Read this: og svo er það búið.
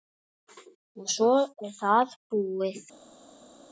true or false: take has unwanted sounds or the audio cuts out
false